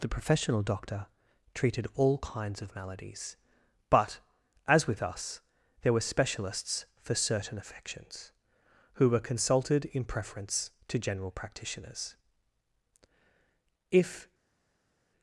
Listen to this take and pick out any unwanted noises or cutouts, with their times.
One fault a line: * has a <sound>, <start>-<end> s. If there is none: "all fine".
all fine